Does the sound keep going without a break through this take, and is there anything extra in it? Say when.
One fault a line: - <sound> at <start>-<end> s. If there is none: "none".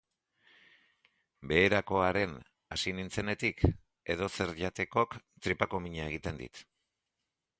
none